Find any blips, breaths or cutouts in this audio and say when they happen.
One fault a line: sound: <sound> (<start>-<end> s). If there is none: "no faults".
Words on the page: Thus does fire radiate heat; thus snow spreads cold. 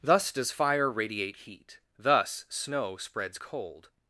no faults